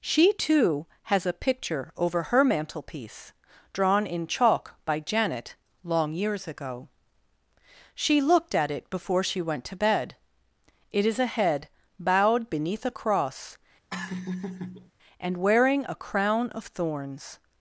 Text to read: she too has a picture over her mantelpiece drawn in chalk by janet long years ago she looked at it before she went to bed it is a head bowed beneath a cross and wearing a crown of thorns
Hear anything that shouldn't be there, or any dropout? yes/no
yes